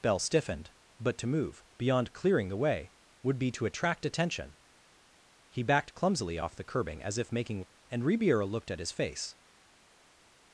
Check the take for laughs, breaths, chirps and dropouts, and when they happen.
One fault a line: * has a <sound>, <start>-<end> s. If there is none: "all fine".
all fine